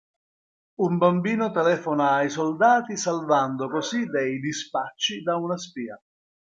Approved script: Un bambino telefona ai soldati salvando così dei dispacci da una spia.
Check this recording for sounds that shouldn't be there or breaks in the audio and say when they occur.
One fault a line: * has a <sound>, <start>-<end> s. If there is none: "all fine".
all fine